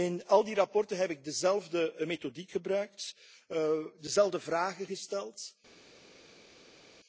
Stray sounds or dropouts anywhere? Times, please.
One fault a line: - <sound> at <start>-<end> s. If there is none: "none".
none